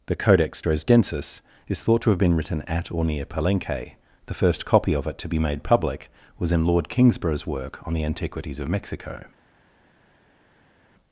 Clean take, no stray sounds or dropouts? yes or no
yes